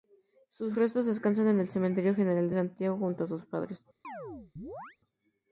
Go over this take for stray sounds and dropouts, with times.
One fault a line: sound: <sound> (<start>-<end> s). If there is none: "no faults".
sound: chirp (4.0-5.0 s)